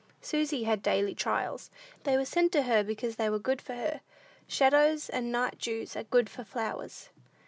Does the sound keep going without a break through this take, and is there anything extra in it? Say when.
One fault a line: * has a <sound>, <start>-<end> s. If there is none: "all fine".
all fine